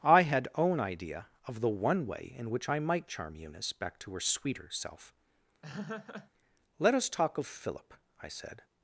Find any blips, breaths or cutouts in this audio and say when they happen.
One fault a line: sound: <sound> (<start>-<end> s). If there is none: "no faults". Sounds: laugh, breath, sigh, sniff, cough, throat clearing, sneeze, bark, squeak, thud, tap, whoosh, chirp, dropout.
sound: laugh (5.6-6.3 s)